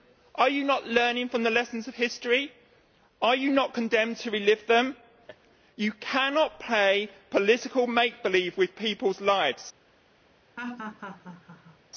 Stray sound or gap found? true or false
true